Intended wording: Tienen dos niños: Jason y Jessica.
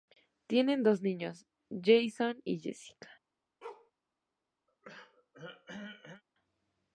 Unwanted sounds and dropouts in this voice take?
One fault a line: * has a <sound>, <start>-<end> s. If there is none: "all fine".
* has a bark, 3.6-3.9 s
* has a throat clearing, 4.7-6.2 s